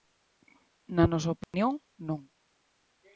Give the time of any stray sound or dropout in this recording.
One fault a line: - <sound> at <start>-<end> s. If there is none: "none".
- dropout at 1.4-1.5 s